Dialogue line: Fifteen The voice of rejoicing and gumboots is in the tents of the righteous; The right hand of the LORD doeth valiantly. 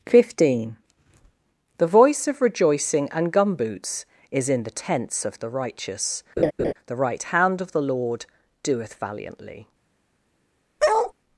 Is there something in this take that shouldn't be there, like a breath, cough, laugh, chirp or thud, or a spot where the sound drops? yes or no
yes